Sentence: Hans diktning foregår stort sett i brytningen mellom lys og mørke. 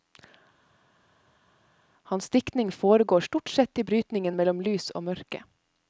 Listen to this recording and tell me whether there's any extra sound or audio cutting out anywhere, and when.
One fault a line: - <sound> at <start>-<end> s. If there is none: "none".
none